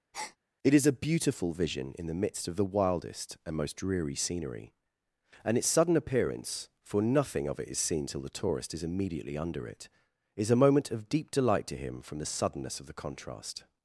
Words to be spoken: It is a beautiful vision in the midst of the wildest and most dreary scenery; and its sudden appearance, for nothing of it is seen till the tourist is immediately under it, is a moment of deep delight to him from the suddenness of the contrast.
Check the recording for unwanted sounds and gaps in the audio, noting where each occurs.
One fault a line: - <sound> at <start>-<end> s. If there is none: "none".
- breath at 0.1-0.4 s